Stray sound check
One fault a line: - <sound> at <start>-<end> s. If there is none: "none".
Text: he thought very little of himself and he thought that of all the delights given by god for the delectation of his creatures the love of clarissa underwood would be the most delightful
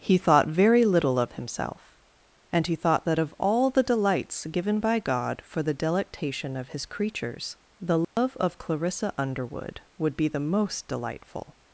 - dropout at 8.0-8.2 s